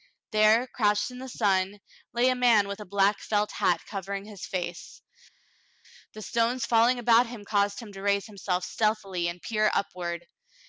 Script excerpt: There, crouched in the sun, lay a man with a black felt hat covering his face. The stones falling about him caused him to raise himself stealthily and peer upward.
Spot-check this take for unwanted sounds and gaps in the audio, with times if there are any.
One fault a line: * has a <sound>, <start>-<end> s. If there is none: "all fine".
all fine